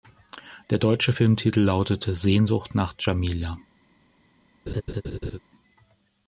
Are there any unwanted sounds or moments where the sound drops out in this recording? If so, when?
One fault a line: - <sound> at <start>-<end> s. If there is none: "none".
- laugh at 4.7-5.4 s